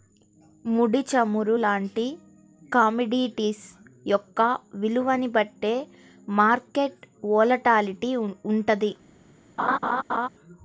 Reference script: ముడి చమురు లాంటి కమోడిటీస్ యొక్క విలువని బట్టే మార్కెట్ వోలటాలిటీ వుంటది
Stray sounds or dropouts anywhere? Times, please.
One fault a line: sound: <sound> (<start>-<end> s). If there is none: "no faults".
sound: laugh (9.6-10.3 s)